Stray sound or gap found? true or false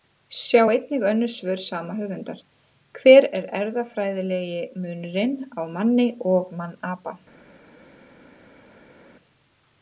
false